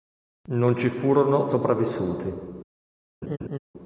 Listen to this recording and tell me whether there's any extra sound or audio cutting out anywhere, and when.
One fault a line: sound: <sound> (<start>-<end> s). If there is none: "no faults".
sound: laugh (3.2-3.6 s)